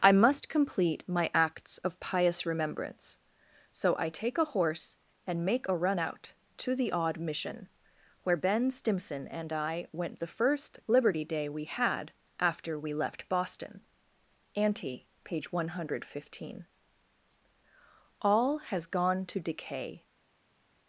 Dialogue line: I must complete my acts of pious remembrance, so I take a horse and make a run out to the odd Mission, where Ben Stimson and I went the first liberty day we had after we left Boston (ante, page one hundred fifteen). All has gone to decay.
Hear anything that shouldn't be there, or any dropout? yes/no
no